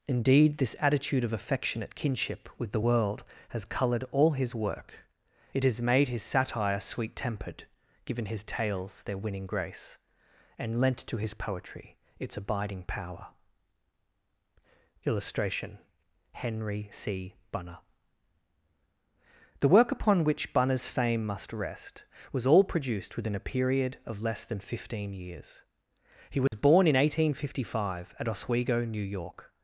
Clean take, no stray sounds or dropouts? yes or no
no